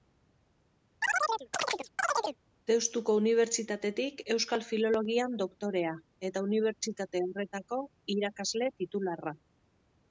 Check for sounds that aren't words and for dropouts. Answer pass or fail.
fail